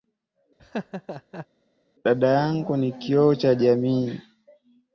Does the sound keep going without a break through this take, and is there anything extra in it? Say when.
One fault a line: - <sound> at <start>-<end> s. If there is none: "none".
- laugh at 0.6-1.5 s